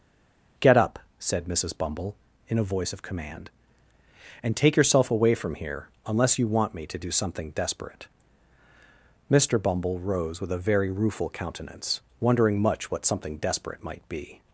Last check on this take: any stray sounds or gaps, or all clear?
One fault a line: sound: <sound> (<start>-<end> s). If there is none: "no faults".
no faults